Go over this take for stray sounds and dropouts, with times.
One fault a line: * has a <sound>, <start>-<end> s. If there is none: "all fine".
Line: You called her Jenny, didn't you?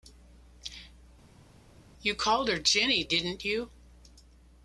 all fine